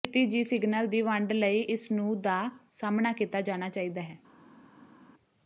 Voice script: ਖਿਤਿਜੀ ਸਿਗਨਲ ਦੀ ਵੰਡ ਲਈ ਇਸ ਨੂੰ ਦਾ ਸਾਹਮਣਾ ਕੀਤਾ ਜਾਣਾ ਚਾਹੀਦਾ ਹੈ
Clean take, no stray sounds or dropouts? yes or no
yes